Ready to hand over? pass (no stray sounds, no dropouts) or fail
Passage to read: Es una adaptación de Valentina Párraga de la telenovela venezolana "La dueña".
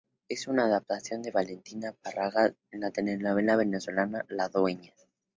pass